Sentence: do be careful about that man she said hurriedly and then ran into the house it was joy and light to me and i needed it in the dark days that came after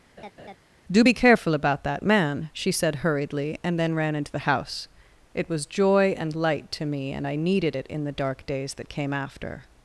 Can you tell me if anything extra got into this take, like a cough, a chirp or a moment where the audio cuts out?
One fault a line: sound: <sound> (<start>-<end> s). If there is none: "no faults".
sound: laugh (0.2-0.6 s)